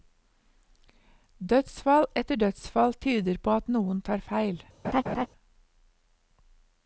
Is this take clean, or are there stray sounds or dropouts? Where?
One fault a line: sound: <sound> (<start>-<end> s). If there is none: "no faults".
sound: laugh (4.8-5.3 s)